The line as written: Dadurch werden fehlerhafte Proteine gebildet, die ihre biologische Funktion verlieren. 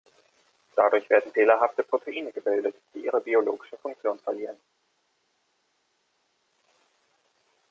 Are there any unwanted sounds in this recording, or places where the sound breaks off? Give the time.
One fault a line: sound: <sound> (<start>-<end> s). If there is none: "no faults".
no faults